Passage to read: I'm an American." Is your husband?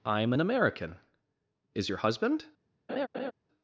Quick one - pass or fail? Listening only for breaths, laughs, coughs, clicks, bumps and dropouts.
fail